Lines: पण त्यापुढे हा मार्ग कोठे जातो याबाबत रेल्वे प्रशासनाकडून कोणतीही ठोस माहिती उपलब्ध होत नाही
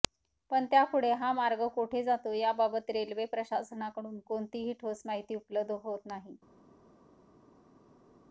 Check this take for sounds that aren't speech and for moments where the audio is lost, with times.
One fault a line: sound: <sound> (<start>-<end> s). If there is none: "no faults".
no faults